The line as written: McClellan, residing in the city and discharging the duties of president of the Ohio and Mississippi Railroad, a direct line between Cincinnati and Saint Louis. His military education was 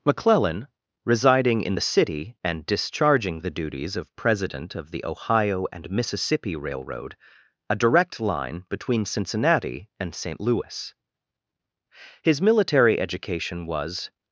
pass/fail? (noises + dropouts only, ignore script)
pass